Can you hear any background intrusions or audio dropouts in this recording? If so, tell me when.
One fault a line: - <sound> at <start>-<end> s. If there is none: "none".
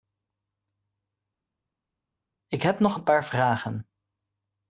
none